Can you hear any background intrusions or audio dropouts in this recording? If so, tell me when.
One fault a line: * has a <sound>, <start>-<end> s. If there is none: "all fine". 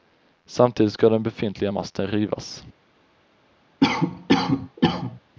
* has a cough, 3.8-5.2 s